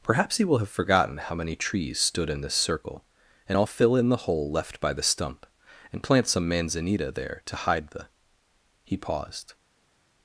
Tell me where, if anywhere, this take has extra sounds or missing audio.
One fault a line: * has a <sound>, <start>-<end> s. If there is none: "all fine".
all fine